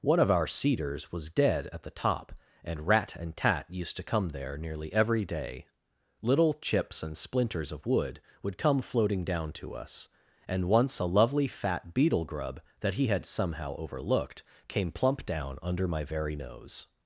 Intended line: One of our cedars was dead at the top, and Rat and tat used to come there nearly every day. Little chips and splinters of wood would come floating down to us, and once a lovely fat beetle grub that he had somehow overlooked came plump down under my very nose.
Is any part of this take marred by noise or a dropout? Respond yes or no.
no